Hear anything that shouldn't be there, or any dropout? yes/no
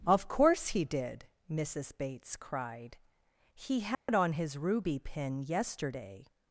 yes